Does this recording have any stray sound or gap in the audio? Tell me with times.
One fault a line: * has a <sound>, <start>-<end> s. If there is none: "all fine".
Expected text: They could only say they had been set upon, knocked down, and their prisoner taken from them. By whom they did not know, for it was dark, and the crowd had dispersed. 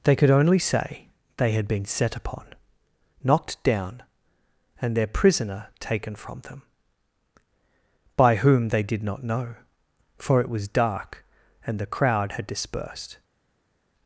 all fine